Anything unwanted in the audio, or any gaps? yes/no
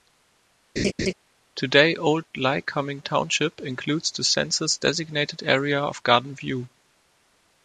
yes